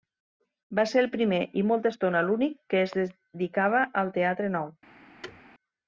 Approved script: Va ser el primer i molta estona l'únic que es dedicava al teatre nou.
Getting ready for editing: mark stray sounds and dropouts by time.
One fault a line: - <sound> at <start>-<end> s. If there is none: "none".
- thud at 5.2-5.4 s